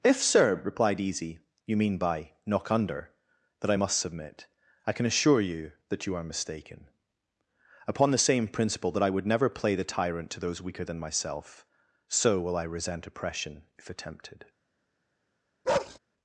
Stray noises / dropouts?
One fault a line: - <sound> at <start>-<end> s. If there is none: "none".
- bark at 15.6-16.0 s